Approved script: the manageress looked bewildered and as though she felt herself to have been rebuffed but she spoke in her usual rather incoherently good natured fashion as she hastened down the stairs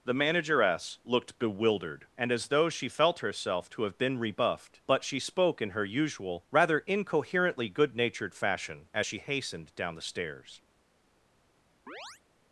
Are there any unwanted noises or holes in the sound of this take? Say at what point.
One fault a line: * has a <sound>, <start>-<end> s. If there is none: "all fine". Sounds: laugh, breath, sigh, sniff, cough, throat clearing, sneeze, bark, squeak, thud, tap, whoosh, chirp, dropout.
* has a chirp, 11.9-12.2 s